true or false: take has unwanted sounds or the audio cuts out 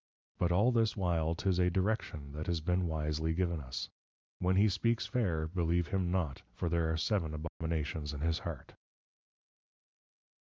true